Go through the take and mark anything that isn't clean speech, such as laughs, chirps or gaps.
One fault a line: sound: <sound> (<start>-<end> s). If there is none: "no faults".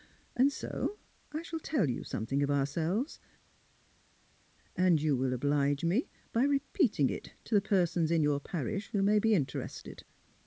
no faults